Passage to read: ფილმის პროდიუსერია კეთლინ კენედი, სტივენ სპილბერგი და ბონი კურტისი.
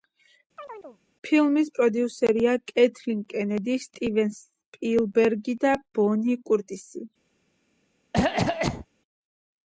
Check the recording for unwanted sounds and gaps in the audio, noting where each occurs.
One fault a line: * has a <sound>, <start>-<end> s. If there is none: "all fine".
* has a chirp, 0.6-1.0 s
* has a cough, 8.1-8.9 s